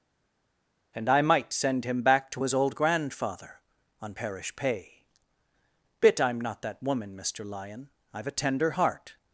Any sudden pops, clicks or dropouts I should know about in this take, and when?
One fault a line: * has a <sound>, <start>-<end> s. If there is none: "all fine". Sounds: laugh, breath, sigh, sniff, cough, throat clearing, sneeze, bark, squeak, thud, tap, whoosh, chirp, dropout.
all fine